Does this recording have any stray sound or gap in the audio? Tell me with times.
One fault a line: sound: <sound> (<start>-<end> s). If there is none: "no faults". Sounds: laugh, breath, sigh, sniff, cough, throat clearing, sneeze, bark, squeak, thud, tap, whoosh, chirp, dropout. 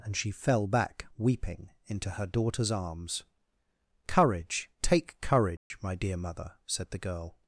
sound: dropout (5.6-5.7 s)